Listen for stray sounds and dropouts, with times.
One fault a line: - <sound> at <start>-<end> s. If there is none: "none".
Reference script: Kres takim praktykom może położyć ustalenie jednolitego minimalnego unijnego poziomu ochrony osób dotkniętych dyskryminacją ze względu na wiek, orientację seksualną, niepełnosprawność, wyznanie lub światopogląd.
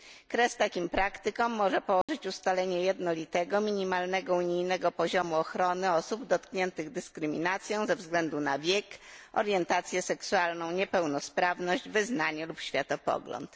- dropout at 2.0-2.1 s